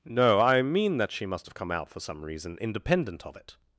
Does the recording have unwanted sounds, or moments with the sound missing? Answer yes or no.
no